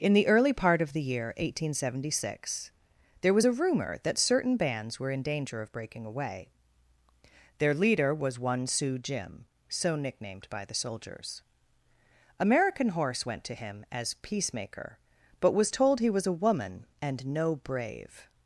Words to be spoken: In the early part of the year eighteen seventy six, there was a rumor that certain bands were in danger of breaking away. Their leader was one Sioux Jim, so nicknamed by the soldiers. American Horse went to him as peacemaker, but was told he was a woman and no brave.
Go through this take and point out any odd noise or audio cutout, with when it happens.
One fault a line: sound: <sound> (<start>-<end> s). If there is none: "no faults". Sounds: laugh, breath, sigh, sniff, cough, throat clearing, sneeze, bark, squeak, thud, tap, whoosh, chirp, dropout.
no faults